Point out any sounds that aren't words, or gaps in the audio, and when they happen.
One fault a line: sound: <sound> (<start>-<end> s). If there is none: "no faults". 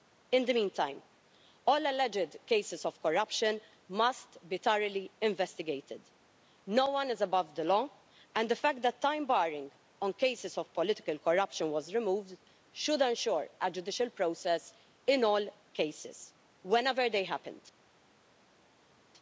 no faults